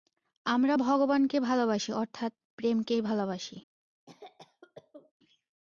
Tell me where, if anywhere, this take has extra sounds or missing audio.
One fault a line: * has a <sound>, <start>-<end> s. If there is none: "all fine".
* has a cough, 4.1-5.1 s